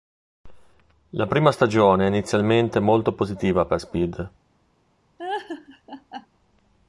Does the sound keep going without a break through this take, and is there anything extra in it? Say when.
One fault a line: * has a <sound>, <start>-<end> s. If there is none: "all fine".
* has a laugh, 5.2-6.3 s